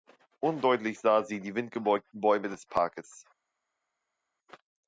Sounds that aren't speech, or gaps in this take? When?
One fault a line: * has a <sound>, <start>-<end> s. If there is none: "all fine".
all fine